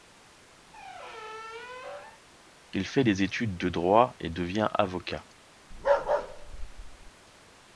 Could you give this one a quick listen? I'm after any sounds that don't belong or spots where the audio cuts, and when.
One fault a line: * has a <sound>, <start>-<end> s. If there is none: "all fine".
* has a squeak, 0.7-2.2 s
* has a bark, 5.7-7.1 s